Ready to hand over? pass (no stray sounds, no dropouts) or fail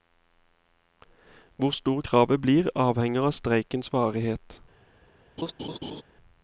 fail